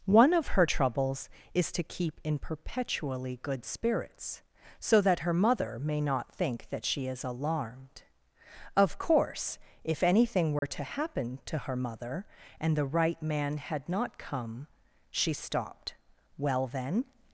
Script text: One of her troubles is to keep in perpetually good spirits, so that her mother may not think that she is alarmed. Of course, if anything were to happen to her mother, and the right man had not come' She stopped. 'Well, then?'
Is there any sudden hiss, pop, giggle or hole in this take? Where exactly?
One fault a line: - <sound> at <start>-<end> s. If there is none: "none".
- dropout at 10.6-10.6 s